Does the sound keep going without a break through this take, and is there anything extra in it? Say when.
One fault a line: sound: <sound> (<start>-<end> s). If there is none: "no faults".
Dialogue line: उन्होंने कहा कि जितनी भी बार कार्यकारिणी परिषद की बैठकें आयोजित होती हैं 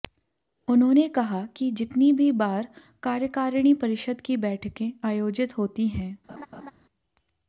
sound: laugh (6.3-6.7 s)